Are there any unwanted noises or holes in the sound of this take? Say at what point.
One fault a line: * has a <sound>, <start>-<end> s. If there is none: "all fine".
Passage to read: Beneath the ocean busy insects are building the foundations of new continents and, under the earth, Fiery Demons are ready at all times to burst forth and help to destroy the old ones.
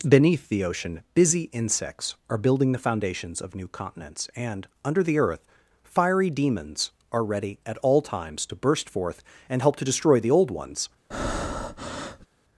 * has a breath, 11.1-12.3 s